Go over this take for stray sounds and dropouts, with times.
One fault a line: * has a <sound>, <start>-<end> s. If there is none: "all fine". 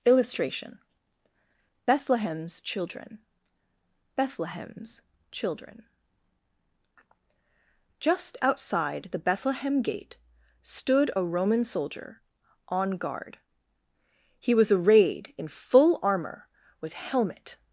all fine